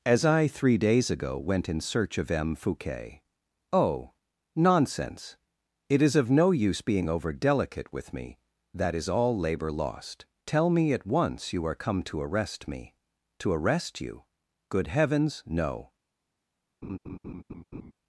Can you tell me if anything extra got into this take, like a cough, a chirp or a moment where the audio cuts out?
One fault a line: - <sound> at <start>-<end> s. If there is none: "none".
- laugh at 16.8-17.9 s